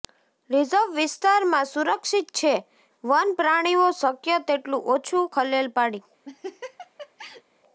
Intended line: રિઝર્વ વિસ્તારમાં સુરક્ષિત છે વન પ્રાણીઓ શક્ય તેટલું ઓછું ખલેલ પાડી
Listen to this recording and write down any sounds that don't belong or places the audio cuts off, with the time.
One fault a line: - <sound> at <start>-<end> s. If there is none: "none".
- laugh at 6.3-7.4 s